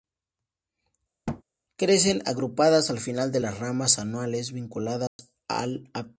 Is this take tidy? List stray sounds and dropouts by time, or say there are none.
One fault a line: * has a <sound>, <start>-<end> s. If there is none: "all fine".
* has a thud, 1.3-1.4 s
* has a dropout, 5.1-5.2 s